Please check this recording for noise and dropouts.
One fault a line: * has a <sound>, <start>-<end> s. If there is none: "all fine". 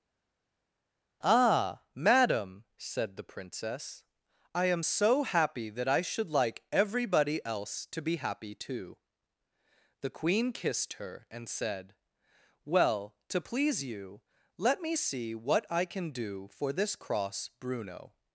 all fine